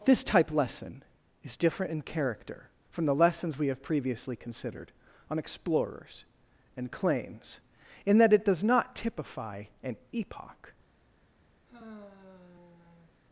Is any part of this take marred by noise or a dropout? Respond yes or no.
yes